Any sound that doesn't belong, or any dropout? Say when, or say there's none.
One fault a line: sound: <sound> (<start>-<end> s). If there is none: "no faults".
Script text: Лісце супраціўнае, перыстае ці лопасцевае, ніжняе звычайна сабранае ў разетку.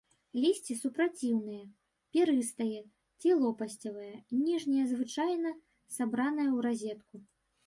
no faults